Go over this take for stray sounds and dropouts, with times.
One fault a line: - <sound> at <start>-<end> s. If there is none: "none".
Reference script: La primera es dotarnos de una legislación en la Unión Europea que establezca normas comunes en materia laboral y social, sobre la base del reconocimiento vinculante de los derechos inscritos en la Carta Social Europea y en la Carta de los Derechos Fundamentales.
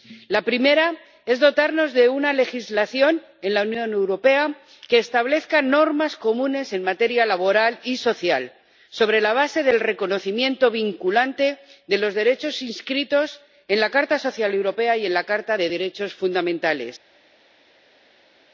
none